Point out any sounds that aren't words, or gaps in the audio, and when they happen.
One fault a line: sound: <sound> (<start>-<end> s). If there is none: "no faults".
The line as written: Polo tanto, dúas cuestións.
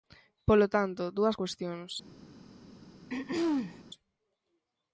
sound: throat clearing (3.1-3.8 s)